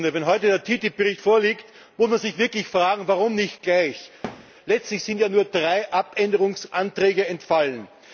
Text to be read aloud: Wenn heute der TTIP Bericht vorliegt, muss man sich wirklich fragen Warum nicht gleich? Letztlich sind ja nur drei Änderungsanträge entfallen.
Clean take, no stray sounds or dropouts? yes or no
no